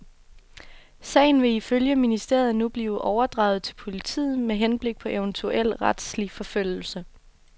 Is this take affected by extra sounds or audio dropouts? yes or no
no